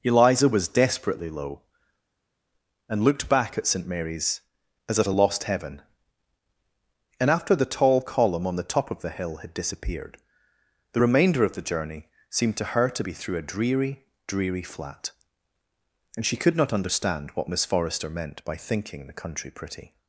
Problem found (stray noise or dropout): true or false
false